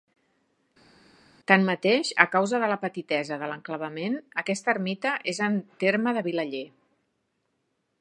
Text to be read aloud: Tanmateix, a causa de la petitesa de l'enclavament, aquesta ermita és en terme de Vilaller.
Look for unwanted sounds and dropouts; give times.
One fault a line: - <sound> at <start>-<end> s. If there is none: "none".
none